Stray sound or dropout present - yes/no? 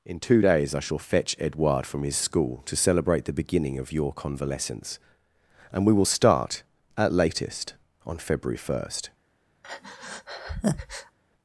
yes